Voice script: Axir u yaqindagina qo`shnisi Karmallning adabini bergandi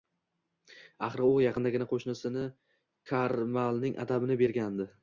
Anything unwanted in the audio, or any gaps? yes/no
no